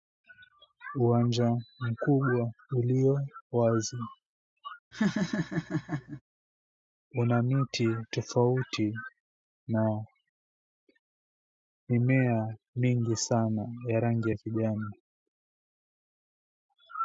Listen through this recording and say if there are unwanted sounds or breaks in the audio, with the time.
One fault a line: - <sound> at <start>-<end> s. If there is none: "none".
- laugh at 4.9-6.2 s